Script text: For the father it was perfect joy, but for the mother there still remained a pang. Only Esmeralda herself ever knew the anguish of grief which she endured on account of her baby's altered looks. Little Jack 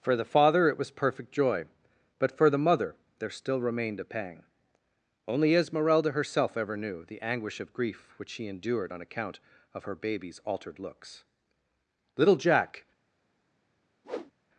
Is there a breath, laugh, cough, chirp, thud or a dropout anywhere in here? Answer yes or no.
yes